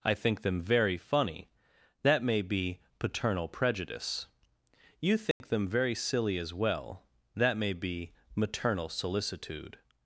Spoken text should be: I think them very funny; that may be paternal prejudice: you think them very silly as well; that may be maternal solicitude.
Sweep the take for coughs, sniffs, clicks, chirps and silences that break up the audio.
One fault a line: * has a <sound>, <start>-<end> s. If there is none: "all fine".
* has a dropout, 5.3-5.4 s